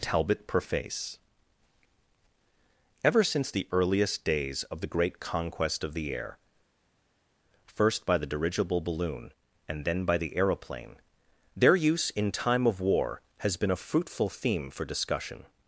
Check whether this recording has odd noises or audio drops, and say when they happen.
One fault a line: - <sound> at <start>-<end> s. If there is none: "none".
none